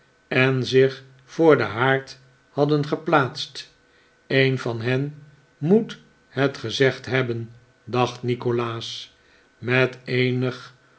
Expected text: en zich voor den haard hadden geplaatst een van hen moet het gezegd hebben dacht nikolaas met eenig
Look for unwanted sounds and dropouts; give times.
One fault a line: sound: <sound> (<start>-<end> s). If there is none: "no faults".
no faults